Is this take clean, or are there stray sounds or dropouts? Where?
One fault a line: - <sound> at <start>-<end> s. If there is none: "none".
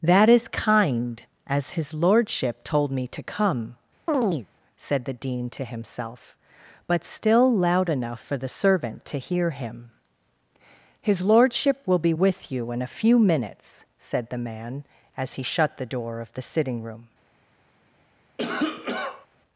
- chirp at 4.1-4.5 s
- cough at 18.4-19.3 s